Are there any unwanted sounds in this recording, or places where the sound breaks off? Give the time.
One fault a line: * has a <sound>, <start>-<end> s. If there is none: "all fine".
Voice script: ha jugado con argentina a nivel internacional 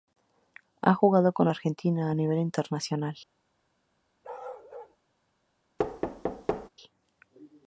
* has a bark, 4.2-5.0 s
* has a thud, 5.8-6.7 s